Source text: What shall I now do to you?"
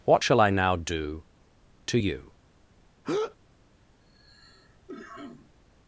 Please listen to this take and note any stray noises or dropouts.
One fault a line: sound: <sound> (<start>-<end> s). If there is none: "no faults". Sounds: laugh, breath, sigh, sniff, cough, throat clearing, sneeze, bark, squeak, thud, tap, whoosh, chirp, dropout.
sound: breath (3.0-3.4 s)
sound: cough (4.0-5.6 s)